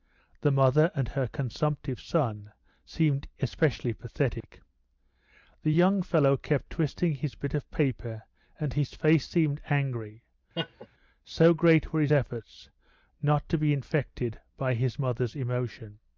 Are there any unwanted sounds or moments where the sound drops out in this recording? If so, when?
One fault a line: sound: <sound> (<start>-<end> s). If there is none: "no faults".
sound: dropout (4.4-4.4 s)
sound: laugh (10.5-10.9 s)